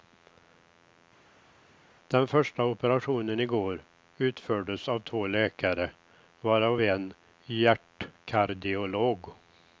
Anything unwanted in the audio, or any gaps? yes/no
no